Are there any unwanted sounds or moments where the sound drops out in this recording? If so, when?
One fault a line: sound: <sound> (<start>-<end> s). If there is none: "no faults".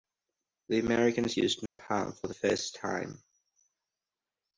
sound: dropout (1.7-1.8 s)